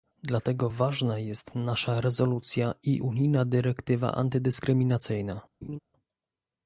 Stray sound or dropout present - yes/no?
yes